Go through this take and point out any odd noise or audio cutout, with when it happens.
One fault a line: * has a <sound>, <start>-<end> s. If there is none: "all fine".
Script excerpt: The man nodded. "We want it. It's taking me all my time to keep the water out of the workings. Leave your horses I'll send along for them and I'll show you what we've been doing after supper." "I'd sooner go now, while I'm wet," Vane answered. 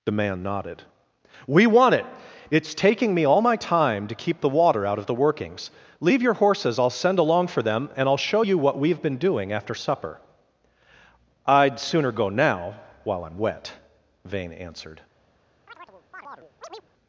* has a chirp, 15.7-16.9 s